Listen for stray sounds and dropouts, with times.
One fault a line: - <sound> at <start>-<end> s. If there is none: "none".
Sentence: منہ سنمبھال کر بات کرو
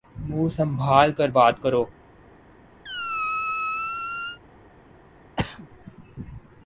- squeak at 2.8-4.4 s
- throat clearing at 5.4-5.7 s